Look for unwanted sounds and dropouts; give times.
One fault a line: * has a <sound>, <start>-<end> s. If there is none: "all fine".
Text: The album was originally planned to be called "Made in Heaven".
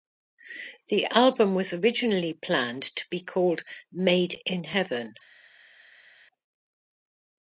all fine